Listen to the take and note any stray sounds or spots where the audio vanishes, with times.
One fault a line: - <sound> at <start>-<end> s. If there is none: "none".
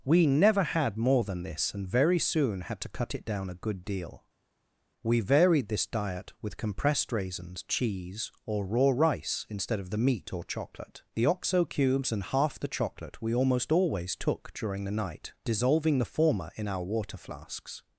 none